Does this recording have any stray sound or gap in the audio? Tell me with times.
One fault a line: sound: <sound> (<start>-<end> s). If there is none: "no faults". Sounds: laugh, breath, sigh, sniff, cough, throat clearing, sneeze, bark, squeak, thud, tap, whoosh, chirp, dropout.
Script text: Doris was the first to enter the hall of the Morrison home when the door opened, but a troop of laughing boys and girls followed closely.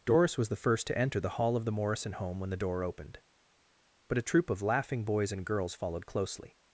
no faults